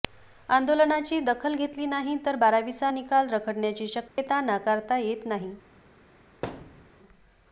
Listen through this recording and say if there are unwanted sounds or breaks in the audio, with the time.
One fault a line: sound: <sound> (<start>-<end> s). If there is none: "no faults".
sound: dropout (4.1-4.2 s)
sound: thud (6.4-6.9 s)